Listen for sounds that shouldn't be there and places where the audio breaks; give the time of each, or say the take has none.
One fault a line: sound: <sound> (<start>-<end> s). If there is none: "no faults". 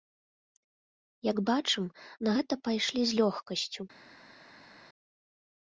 no faults